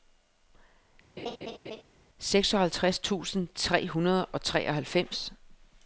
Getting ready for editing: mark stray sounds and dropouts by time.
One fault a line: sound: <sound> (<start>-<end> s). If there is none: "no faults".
sound: laugh (1.2-1.8 s)